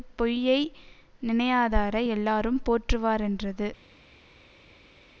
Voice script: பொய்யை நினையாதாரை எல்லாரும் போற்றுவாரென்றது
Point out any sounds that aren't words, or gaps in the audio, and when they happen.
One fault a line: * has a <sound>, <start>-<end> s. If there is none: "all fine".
all fine